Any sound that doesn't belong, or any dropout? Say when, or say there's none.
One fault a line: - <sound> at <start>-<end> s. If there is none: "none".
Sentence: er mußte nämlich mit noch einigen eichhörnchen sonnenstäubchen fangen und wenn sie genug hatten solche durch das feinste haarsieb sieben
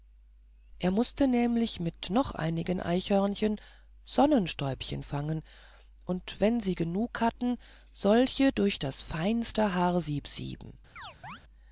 - chirp at 11.0-11.4 s